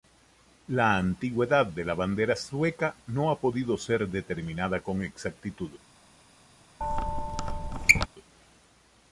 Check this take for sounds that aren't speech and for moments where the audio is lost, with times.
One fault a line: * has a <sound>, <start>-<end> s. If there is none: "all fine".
* has a squeak, 6.8-8.1 s